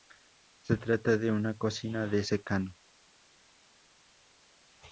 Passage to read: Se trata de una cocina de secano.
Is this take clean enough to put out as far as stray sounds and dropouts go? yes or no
yes